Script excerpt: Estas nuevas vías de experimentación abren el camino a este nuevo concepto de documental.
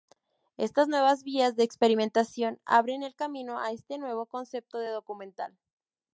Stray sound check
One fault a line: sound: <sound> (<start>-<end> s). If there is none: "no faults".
no faults